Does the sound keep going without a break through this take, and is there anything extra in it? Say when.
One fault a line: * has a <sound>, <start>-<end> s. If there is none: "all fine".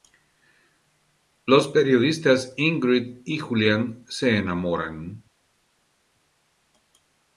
all fine